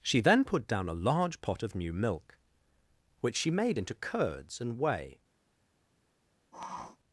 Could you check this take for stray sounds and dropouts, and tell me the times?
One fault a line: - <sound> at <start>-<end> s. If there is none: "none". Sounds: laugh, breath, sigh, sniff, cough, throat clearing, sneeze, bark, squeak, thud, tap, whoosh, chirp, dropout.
- sniff at 6.5-7.0 s